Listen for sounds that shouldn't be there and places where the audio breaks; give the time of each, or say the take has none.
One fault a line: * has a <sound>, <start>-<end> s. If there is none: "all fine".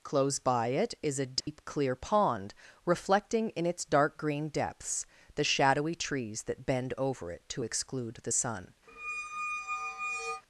* has a dropout, 1.4-1.5 s
* has a squeak, 8.9-10.4 s